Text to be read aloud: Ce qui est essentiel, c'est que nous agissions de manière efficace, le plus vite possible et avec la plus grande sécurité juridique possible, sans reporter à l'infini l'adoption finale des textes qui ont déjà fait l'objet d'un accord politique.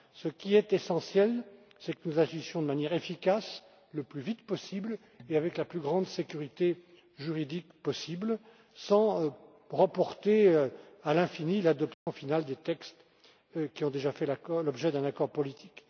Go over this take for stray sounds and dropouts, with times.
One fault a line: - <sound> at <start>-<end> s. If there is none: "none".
- dropout at 11.9-12.1 s